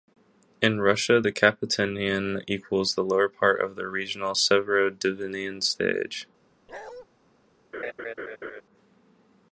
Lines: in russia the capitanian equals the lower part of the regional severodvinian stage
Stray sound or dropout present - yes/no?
yes